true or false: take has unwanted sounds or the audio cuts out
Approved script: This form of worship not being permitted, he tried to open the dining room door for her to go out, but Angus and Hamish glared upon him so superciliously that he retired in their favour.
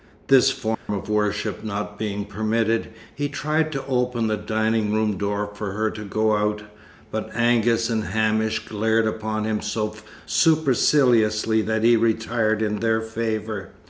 true